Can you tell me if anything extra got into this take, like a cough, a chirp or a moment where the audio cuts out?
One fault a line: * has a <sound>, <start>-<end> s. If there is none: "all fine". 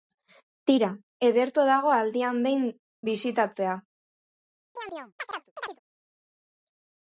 * has a chirp, 4.8-5.8 s